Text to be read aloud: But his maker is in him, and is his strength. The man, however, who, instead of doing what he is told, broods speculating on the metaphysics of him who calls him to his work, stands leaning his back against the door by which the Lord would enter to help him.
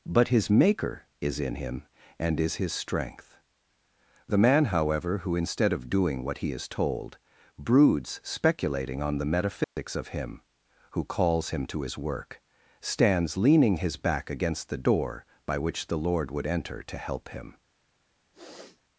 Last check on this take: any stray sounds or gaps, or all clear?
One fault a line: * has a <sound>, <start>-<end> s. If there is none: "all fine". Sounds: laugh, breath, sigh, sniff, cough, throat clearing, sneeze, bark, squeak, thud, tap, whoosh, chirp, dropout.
* has a dropout, 9.6-9.8 s
* has a sniff, 18.3-18.8 s